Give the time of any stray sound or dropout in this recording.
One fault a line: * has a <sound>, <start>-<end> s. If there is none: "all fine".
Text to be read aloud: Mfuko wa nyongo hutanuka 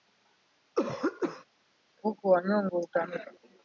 * has a throat clearing, 0.8-1.5 s